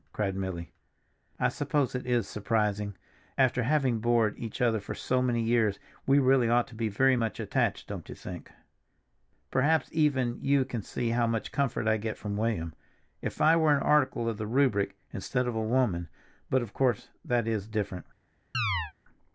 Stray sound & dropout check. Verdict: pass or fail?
fail